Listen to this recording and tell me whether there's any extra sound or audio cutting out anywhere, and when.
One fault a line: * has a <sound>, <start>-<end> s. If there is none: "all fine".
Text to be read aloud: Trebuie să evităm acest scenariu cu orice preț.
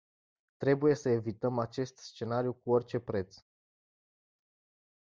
all fine